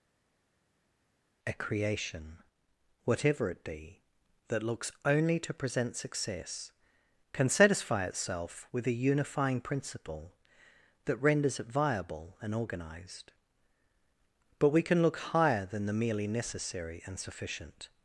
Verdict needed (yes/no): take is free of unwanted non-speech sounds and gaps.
yes